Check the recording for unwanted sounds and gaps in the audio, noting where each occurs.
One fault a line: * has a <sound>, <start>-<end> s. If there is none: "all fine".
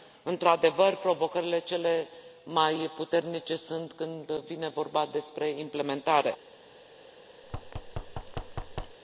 * has a thud, 7.4-9.0 s